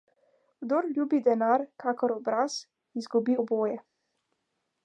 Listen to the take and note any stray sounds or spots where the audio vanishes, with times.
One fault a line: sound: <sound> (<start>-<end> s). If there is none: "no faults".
no faults